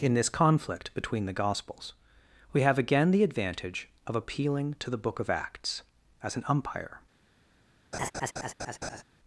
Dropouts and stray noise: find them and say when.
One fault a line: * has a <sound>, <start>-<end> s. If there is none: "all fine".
* has a laugh, 7.9-9.0 s